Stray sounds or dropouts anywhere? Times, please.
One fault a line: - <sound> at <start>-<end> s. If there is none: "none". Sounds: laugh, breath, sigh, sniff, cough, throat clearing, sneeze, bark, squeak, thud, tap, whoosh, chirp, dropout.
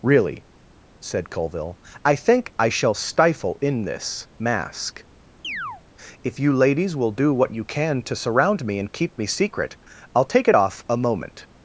- chirp at 5.4-5.8 s